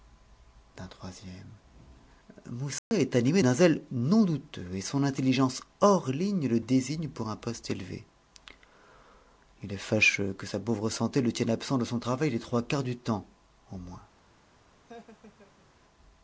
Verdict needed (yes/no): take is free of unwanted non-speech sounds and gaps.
no